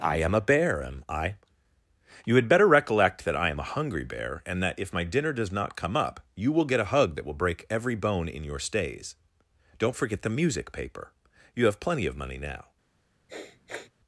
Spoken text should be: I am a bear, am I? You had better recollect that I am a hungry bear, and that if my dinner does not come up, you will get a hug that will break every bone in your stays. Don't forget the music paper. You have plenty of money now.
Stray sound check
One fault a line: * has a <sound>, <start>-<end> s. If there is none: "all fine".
* has a sniff, 13.3-13.9 s